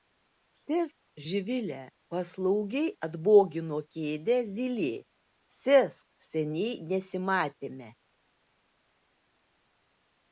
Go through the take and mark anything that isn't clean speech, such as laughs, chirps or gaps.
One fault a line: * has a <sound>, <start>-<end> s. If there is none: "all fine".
all fine